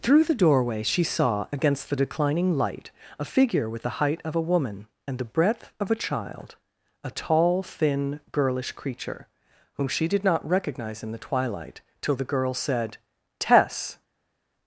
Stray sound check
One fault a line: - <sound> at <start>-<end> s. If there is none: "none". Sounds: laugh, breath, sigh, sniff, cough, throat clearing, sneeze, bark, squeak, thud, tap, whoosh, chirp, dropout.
none